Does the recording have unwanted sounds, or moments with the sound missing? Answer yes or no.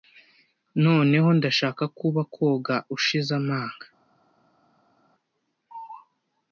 no